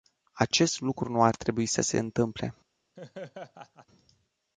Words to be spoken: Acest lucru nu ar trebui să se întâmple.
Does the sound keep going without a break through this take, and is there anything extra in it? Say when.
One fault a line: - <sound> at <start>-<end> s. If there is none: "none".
- laugh at 3.0-3.9 s